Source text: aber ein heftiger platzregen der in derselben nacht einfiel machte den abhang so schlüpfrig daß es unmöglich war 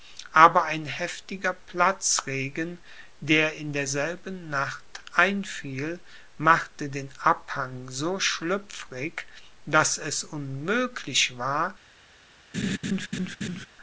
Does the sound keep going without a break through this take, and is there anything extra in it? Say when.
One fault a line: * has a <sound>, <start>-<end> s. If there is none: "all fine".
* has a laugh, 12.5-13.7 s